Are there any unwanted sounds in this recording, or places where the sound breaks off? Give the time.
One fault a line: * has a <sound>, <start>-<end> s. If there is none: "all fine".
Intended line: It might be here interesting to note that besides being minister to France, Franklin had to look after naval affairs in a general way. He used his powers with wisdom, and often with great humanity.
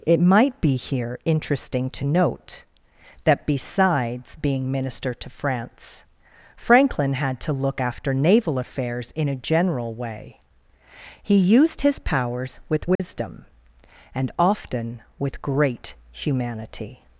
* has a dropout, 13.0-13.0 s